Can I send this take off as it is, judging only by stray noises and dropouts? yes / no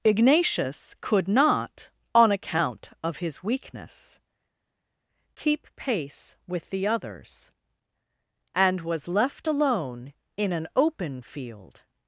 yes